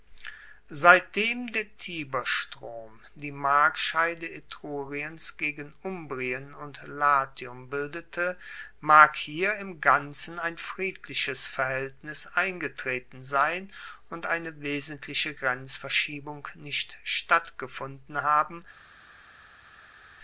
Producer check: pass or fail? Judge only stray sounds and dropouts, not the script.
pass